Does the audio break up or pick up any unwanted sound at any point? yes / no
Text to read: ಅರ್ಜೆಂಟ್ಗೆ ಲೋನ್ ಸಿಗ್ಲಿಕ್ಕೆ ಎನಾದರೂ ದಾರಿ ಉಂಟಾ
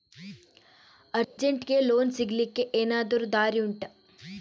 yes